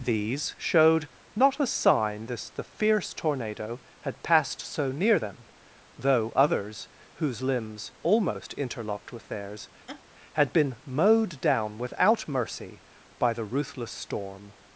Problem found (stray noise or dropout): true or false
true